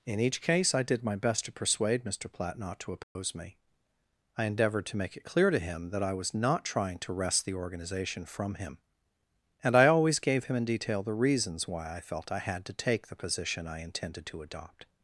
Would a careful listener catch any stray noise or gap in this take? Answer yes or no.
yes